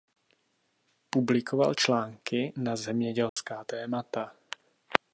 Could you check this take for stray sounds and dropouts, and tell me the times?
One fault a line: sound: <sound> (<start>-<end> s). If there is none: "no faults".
sound: dropout (3.3-3.4 s)